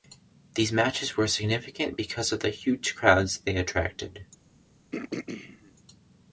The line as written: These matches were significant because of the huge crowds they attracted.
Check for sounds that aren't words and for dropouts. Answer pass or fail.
fail